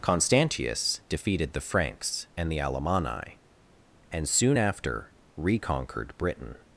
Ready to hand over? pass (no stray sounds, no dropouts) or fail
pass